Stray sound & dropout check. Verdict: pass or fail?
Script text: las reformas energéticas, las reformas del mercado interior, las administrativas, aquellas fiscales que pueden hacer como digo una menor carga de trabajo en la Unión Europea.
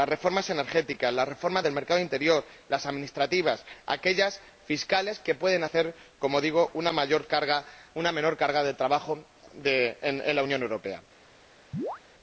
fail